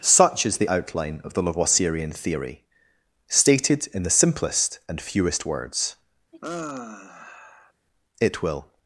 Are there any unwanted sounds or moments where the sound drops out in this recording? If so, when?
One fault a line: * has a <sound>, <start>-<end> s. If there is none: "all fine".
* has a sigh, 6.3-7.7 s